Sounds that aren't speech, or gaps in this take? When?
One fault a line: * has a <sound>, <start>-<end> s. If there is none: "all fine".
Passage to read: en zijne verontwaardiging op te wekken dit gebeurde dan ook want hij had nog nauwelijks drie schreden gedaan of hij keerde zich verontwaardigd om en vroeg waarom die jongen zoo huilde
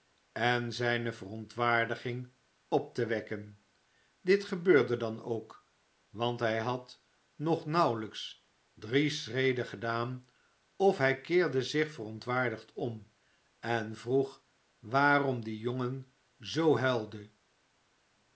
all fine